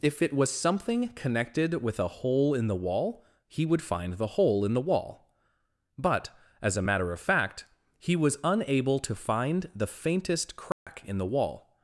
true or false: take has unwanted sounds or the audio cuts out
true